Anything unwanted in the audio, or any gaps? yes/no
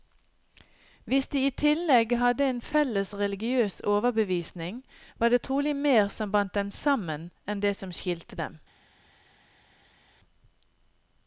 no